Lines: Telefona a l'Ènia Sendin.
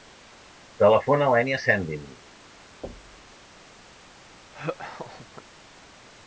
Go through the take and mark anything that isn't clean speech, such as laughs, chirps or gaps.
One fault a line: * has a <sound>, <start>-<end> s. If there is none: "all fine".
* has a thud, 2.8-3.4 s
* has a laugh, 4.5-5.4 s